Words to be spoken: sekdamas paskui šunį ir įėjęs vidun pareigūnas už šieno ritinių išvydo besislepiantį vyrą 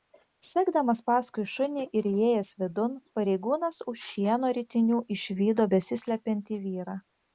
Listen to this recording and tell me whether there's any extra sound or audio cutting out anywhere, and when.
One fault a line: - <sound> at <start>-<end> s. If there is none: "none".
none